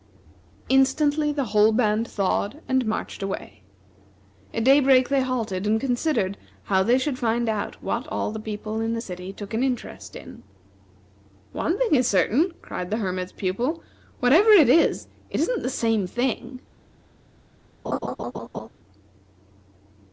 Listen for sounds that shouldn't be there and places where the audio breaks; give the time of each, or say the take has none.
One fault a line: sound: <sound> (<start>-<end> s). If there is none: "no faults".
sound: laugh (17.8-18.7 s)